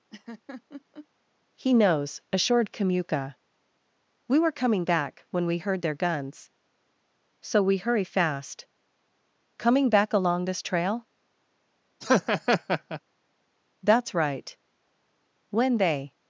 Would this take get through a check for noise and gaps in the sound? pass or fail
fail